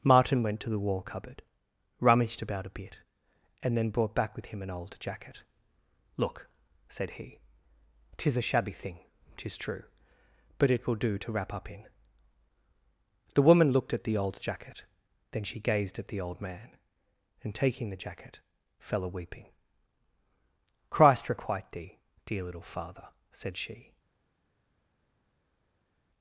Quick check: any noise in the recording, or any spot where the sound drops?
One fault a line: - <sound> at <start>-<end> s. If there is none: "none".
none